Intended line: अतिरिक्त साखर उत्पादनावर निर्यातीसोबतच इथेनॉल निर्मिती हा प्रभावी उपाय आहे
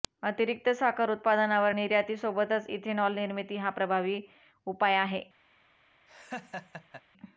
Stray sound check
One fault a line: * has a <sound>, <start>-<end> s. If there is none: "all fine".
* has a laugh, 6.1-7.0 s